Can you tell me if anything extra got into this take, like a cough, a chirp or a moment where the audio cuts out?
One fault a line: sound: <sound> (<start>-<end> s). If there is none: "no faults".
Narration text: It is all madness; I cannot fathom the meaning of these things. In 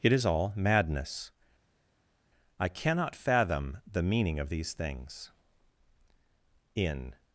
no faults